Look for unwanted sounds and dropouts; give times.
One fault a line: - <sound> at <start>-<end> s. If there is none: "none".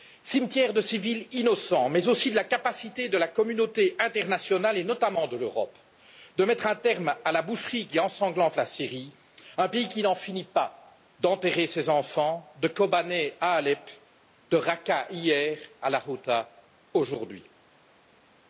none